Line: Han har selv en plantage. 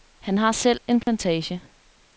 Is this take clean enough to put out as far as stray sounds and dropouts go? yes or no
no